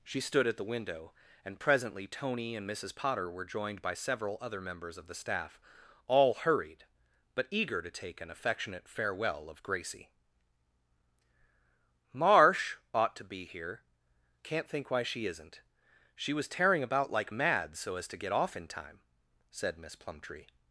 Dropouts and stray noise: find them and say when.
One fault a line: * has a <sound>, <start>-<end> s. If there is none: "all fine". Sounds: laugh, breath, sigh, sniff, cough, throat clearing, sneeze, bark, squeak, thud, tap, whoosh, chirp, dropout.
all fine